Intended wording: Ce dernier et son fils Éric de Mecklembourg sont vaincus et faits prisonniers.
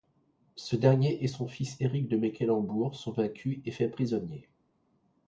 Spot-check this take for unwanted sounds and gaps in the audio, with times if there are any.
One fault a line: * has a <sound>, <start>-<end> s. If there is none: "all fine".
all fine